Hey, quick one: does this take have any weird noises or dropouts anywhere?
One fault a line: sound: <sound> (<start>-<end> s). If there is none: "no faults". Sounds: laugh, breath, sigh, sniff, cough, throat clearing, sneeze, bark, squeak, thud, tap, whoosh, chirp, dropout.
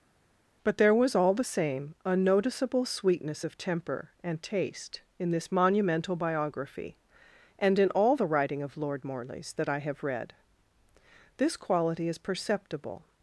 no faults